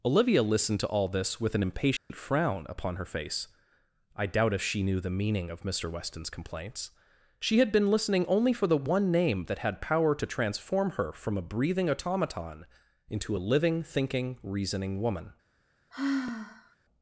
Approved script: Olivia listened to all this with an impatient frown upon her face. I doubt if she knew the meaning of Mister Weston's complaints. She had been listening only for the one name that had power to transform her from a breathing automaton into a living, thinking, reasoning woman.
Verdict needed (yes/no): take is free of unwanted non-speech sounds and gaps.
no